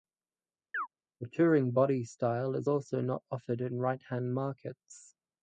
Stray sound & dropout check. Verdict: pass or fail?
fail